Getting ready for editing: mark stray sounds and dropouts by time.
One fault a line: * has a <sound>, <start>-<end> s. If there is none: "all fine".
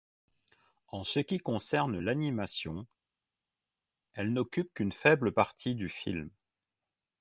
all fine